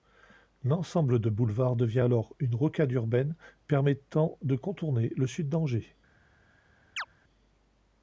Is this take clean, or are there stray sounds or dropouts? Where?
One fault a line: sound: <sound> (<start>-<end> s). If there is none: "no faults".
sound: chirp (7.0-7.1 s)